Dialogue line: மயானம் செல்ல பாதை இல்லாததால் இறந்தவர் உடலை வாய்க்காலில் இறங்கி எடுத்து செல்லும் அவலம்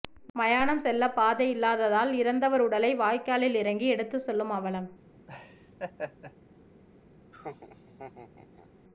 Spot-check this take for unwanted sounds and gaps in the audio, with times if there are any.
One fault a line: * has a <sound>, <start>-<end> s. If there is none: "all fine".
* has a laugh, 5.3-6.4 s
* has a laugh, 7.3-8.7 s